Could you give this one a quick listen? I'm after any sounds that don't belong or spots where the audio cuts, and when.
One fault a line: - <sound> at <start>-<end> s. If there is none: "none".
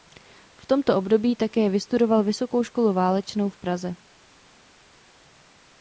none